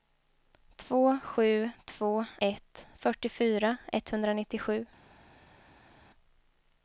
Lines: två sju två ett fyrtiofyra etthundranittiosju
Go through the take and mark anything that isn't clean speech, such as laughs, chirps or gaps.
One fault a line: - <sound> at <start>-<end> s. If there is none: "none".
none